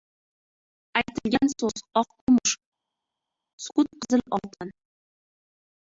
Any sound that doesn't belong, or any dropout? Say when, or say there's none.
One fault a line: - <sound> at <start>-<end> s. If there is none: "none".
none